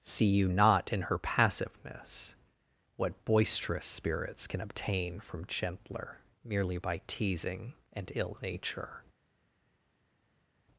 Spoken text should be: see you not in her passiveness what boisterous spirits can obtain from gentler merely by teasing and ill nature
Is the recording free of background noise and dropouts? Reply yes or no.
yes